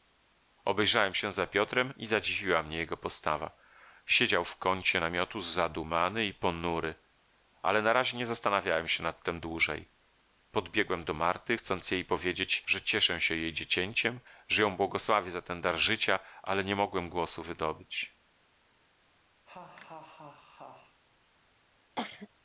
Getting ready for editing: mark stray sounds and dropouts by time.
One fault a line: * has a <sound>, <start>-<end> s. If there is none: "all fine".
* has a laugh, 19.5-21.0 s
* has a cough, 22.0-22.3 s